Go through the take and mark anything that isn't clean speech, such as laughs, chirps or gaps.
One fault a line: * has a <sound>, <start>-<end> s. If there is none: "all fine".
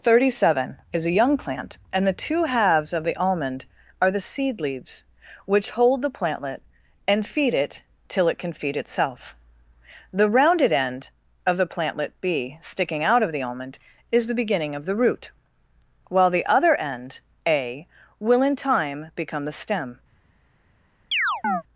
* has a chirp, 21.1-21.6 s